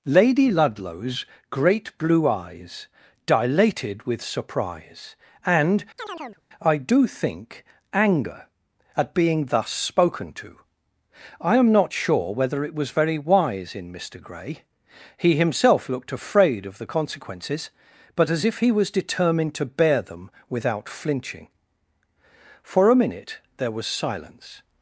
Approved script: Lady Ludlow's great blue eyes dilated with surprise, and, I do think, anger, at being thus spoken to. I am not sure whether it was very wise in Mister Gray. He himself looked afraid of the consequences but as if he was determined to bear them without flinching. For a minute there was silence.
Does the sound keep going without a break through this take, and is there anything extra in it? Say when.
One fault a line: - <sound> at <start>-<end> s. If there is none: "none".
- chirp at 6.0-6.4 s